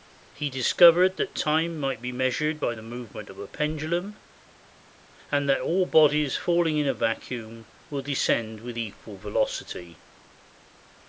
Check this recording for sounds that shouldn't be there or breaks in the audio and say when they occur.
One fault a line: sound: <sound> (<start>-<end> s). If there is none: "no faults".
no faults